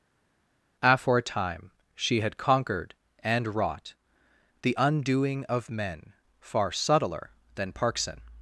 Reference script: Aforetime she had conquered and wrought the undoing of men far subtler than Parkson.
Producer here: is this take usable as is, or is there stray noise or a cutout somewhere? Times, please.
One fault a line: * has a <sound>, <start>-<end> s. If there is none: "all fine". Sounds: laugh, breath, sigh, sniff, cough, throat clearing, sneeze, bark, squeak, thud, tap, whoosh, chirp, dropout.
all fine